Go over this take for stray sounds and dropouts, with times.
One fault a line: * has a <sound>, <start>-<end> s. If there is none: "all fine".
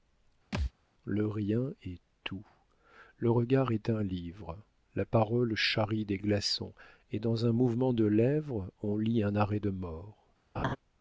* has a thud, 0.5-0.7 s
* has a laugh, 10.5-10.8 s